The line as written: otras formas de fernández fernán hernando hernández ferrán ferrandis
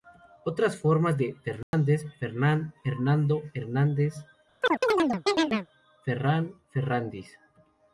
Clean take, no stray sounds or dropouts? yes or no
no